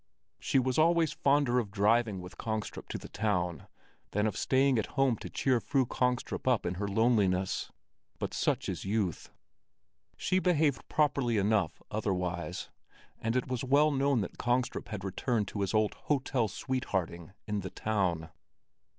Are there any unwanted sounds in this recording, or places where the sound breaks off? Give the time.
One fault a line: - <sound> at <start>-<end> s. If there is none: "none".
none